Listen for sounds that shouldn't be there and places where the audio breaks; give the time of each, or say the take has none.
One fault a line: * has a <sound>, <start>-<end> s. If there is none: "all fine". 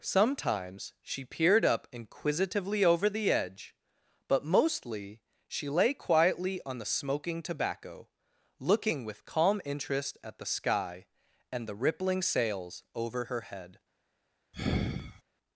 * has a sigh, 14.5-15.2 s